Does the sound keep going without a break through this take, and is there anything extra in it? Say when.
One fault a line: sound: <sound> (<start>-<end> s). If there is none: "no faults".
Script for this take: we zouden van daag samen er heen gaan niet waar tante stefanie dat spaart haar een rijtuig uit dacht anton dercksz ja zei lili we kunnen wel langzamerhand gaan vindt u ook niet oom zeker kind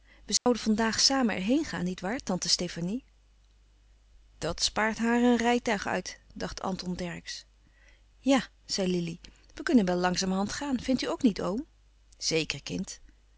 sound: dropout (0.4-0.5 s)